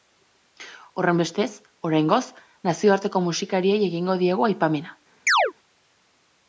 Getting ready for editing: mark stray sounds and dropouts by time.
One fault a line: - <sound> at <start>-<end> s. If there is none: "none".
- chirp at 5.3-5.5 s